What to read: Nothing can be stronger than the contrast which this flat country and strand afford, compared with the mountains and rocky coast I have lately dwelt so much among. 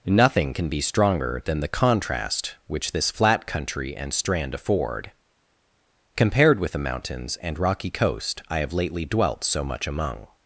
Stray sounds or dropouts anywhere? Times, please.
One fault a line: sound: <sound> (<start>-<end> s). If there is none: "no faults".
no faults